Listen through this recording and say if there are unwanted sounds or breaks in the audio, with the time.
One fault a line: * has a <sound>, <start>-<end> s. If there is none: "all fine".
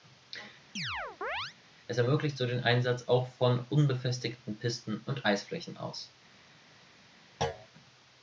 * has a chirp, 0.8-1.6 s
* has a thud, 7.4-7.7 s